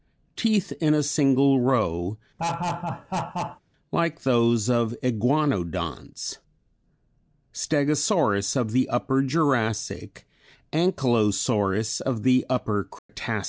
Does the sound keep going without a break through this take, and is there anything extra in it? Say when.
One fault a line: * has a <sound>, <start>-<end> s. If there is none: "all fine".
* has a laugh, 2.4-3.6 s
* has a dropout, 13.0-13.1 s